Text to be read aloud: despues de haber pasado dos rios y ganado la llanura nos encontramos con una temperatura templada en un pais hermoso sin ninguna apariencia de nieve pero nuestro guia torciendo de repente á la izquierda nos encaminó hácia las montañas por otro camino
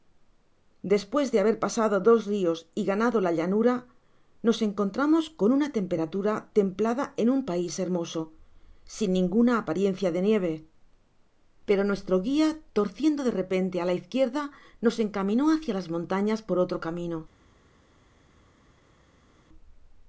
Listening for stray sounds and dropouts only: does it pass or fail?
pass